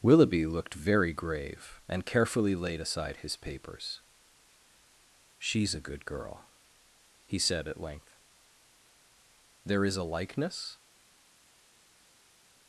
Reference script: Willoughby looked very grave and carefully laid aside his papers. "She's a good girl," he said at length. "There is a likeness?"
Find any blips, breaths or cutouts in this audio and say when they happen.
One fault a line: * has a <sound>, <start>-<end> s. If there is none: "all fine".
all fine